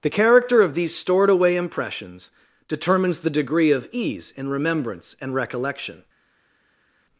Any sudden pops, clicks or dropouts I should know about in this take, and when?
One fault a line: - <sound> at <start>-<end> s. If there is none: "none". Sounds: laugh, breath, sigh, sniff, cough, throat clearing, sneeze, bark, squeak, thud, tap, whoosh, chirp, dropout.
none